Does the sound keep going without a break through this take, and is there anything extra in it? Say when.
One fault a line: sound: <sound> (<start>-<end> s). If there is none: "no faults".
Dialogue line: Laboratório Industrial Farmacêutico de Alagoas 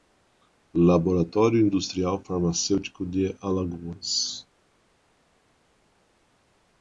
no faults